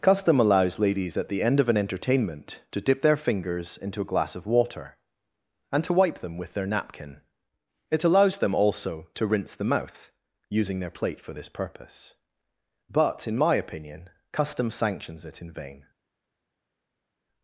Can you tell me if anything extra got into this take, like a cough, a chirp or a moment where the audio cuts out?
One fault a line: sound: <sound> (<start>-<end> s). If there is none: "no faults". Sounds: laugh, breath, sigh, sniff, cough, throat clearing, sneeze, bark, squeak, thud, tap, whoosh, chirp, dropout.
no faults